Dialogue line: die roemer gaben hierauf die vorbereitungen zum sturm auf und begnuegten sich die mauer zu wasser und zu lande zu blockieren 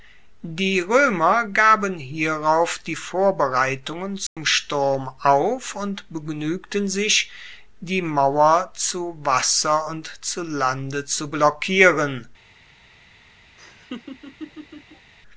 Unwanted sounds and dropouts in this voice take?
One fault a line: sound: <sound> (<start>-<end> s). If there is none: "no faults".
sound: dropout (4.3-4.4 s)
sound: laugh (13.6-15.1 s)